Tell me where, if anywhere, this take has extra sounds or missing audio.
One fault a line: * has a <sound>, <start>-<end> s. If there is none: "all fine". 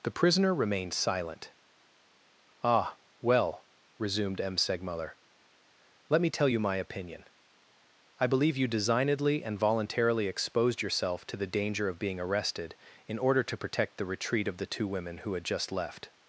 all fine